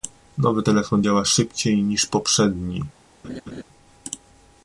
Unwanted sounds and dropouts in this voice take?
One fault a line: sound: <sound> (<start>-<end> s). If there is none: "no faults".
sound: laugh (3.2-3.6 s)